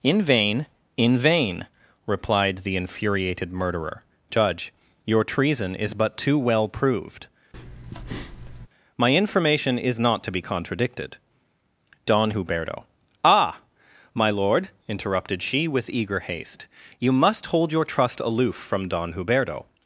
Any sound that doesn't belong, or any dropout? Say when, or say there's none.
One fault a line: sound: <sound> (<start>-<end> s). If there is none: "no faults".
sound: breath (7.5-8.7 s)